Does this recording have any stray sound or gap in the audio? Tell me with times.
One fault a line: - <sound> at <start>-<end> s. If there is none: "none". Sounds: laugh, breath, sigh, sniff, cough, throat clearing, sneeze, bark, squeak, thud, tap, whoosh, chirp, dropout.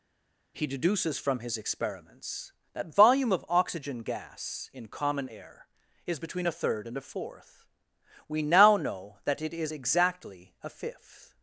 none